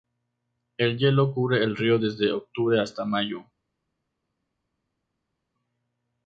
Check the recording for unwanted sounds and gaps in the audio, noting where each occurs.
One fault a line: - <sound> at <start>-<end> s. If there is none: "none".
none